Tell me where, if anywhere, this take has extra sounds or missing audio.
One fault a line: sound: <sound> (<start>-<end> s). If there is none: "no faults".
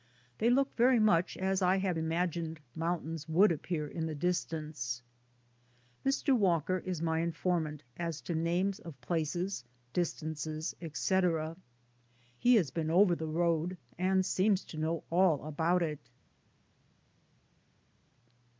no faults